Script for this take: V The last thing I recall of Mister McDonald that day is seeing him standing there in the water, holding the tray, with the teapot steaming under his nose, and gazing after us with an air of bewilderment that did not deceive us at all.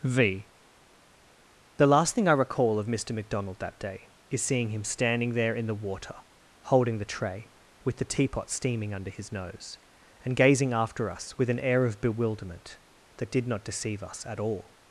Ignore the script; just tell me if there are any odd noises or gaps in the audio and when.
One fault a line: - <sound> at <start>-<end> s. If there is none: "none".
none